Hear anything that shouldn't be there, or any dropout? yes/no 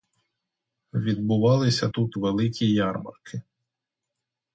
no